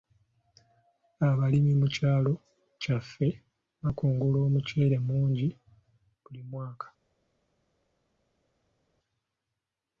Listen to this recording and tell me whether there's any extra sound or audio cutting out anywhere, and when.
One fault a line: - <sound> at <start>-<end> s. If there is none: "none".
none